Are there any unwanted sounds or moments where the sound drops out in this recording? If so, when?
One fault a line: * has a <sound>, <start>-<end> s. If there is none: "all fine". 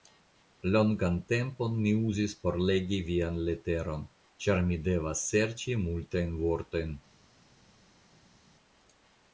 all fine